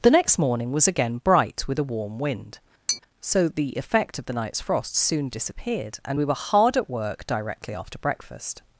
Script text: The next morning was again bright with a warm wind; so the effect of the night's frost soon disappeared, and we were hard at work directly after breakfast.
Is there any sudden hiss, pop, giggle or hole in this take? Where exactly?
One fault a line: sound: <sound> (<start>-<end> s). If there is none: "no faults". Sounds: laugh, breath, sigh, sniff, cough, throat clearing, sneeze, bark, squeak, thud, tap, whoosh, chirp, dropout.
sound: tap (2.9-3.0 s)